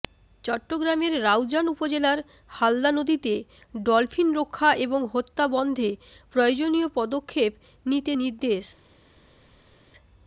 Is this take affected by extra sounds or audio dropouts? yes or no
no